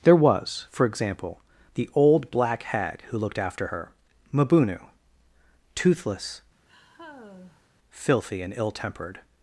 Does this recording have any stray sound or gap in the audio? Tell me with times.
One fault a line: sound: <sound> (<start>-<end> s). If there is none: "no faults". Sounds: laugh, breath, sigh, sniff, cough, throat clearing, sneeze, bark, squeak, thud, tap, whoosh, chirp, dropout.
sound: sigh (6.7-7.7 s)